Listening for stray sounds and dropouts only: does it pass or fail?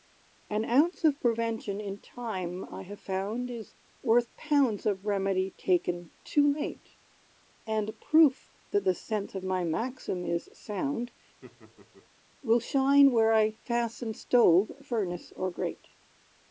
fail